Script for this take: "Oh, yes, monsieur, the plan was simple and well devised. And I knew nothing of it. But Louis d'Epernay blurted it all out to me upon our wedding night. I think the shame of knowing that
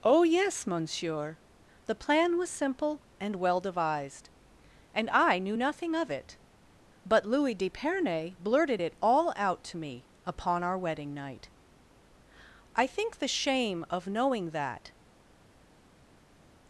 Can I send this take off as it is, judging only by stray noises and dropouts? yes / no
yes